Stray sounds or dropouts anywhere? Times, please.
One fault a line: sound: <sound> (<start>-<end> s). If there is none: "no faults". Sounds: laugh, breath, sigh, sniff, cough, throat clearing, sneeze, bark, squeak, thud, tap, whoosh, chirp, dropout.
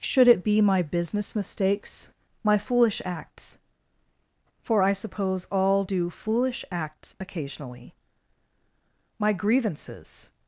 no faults